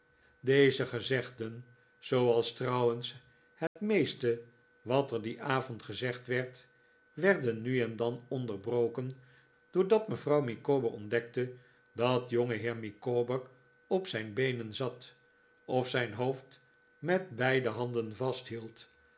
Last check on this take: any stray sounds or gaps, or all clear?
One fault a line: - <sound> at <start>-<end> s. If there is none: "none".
- dropout at 3.7-3.8 s